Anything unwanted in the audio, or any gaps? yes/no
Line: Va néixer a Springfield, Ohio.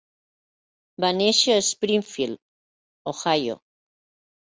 no